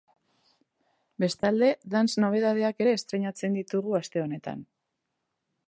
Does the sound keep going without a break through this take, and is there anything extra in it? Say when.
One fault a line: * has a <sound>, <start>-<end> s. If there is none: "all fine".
* has a dropout, 1.4-1.4 s